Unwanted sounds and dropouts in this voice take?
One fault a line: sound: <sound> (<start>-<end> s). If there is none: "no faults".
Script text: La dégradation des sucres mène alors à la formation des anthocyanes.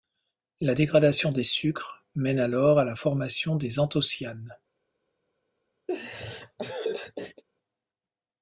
sound: laugh (5.9-7.4 s)